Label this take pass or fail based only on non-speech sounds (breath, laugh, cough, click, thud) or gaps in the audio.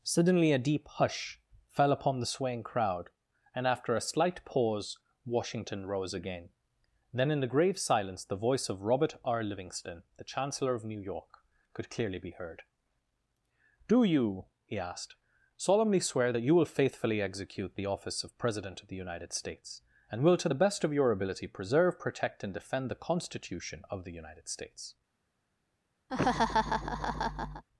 fail